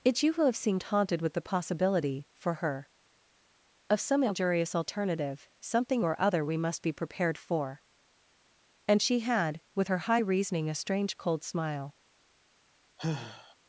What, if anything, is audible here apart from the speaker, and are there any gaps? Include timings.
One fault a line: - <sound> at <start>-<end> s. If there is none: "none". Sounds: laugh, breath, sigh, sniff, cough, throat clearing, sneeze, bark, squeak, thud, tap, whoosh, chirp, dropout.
- sigh at 13.0-13.5 s